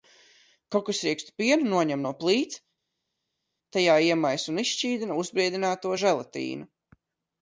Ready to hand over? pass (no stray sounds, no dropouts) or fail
pass